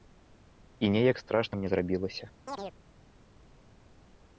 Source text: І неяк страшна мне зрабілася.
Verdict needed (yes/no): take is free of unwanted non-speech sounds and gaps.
no